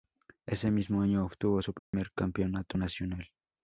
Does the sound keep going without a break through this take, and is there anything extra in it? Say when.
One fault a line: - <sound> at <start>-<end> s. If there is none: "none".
- dropout at 1.8-1.9 s